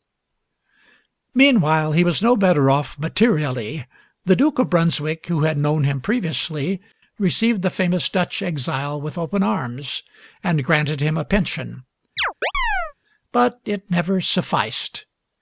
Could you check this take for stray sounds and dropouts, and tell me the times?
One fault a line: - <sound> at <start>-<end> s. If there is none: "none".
- chirp at 12.2-12.9 s